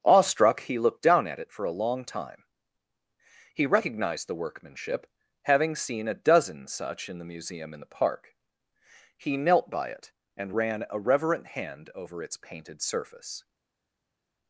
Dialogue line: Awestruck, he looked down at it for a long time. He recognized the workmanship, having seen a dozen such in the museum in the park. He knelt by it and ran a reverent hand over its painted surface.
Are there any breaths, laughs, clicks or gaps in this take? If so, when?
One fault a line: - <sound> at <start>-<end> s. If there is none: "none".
none